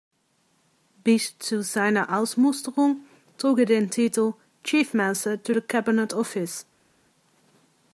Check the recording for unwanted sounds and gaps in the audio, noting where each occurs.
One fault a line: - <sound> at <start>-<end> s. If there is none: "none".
none